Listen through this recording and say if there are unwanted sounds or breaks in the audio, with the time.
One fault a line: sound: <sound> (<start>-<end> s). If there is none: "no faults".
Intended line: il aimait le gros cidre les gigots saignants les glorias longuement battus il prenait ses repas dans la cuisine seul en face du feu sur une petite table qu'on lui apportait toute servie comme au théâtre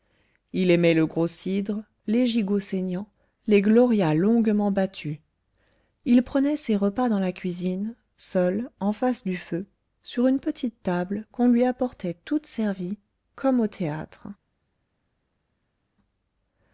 no faults